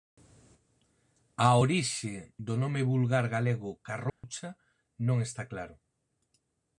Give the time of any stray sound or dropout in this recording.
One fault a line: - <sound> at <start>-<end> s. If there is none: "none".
- dropout at 4.1-4.2 s